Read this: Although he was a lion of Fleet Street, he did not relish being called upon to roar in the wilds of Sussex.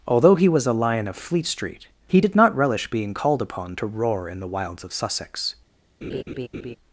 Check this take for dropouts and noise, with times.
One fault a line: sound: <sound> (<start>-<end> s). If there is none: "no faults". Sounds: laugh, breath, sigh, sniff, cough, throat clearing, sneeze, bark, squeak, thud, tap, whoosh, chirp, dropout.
sound: laugh (6.0-6.8 s)